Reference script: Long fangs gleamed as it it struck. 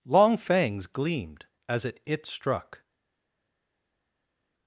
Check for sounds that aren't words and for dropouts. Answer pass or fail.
pass